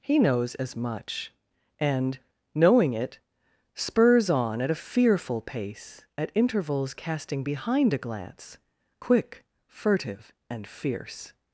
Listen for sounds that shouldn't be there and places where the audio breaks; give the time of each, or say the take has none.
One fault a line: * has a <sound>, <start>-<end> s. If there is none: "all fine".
all fine